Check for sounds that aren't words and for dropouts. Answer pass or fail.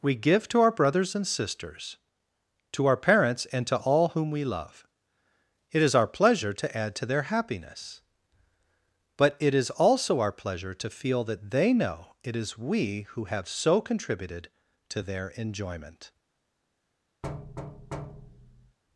fail